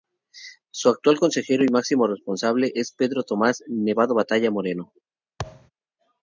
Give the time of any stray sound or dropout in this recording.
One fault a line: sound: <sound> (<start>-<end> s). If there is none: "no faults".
sound: thud (5.4-5.7 s)